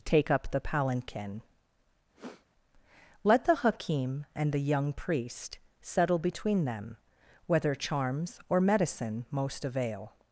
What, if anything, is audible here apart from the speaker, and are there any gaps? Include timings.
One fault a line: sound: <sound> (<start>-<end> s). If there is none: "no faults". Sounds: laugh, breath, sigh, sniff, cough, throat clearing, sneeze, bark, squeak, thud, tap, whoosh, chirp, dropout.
sound: sniff (2.1-2.5 s)